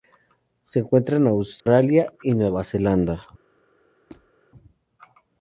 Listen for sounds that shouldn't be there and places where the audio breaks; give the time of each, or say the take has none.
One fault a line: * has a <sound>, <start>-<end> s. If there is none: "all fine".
* has a dropout, 1.6-1.7 s
* has a squeak, 4.1-4.3 s